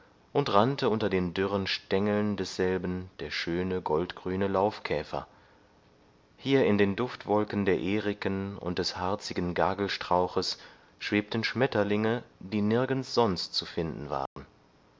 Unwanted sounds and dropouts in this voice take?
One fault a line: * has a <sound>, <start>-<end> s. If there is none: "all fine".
* has a dropout, 14.3-14.4 s